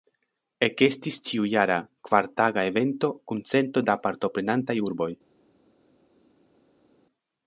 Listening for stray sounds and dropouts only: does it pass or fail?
pass